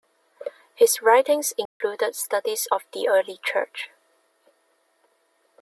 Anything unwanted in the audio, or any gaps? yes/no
yes